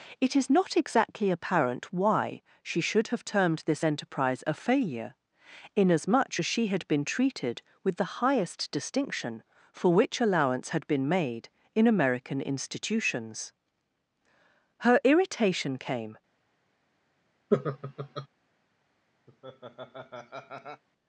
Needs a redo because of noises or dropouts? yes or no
yes